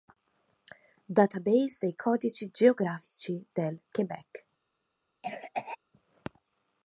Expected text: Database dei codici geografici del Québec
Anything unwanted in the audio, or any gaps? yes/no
yes